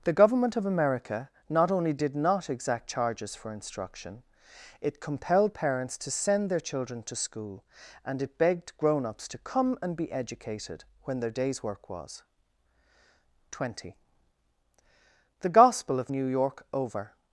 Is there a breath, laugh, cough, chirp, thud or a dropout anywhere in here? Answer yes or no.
no